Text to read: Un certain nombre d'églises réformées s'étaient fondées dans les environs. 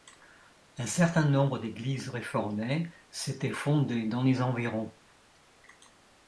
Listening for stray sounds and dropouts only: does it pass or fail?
pass